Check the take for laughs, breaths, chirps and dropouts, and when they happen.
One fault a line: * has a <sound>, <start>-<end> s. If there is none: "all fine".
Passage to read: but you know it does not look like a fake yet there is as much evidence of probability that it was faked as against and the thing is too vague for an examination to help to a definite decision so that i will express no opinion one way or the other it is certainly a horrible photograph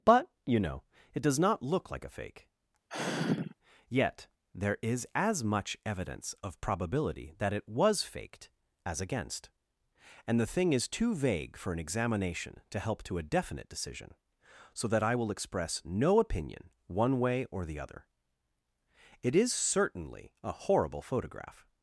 * has a sigh, 2.9-3.5 s